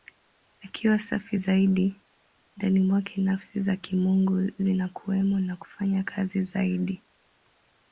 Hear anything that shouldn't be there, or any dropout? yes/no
no